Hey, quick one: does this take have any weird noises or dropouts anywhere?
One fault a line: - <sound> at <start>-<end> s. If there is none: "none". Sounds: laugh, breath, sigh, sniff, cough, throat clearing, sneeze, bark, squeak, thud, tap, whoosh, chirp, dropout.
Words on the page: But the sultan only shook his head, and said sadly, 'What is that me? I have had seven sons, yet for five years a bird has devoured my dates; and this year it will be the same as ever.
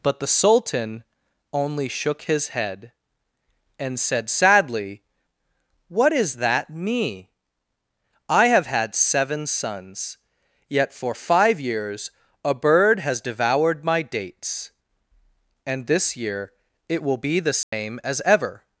- dropout at 17.6-17.7 s